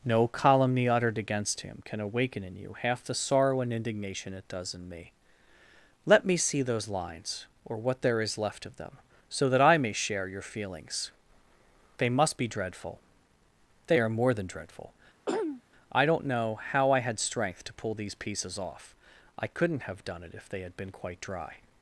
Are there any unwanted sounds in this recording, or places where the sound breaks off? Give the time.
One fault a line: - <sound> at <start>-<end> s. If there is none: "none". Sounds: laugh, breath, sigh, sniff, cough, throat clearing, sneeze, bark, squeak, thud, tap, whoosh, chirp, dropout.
- throat clearing at 15.3-15.6 s